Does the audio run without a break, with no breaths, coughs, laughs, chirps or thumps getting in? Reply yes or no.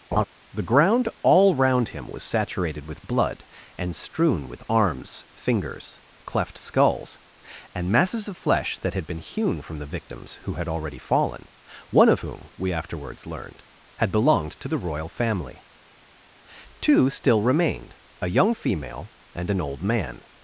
no